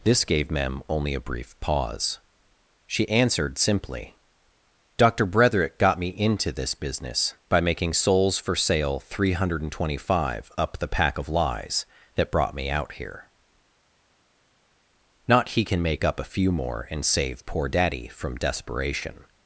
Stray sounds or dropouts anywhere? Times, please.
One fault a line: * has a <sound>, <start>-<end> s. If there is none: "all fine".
all fine